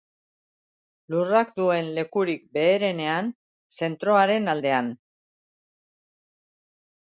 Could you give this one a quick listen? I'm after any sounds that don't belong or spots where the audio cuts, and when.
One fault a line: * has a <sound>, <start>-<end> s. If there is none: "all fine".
all fine